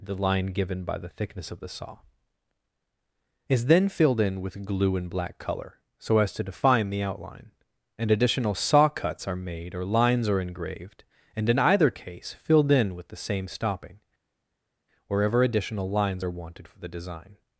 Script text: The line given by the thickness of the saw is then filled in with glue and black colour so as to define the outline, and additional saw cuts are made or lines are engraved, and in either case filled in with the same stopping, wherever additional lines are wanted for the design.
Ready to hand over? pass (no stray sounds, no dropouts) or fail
pass